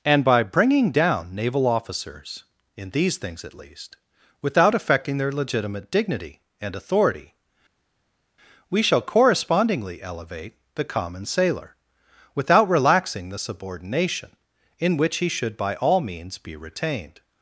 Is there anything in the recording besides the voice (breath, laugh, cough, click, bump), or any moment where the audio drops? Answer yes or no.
no